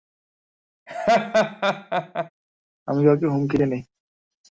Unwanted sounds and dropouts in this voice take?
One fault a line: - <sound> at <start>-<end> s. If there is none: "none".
- laugh at 0.9-2.3 s